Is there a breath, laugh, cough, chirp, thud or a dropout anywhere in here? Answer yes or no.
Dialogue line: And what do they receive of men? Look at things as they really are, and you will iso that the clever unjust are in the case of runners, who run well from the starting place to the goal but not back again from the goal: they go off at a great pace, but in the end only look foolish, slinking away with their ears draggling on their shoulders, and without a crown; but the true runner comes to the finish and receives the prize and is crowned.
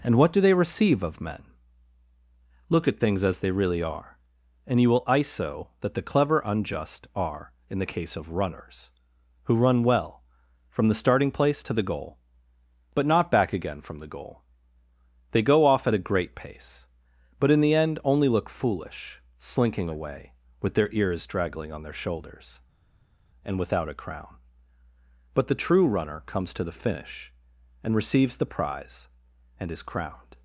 no